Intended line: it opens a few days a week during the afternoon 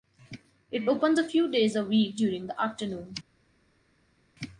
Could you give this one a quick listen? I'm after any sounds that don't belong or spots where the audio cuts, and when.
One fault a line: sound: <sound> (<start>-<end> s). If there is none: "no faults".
no faults